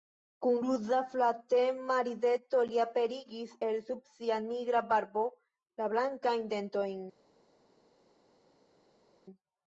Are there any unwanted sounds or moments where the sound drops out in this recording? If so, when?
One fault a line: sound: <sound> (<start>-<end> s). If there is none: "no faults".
no faults